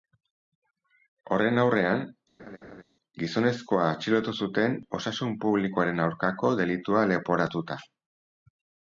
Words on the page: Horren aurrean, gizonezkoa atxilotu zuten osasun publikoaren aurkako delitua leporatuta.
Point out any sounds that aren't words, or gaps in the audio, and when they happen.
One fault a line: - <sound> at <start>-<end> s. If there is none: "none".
- laugh at 2.4-2.8 s